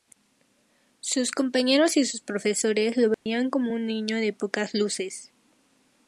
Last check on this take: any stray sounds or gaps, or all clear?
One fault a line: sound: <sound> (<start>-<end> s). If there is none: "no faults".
sound: dropout (3.1-3.3 s)